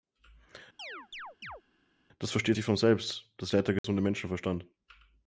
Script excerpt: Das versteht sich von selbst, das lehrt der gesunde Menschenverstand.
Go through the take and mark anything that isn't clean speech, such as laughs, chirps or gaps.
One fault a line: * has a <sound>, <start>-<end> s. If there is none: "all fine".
* has a chirp, 0.8-1.6 s
* has a dropout, 3.8-3.8 s